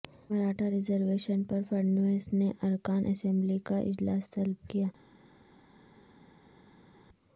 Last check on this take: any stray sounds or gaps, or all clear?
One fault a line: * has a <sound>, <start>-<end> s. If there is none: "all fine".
all fine